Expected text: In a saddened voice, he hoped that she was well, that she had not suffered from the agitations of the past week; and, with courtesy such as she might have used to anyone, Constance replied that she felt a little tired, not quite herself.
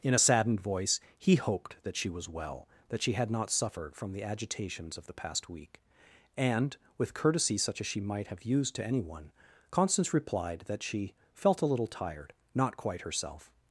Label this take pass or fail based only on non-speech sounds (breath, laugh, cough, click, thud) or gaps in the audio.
pass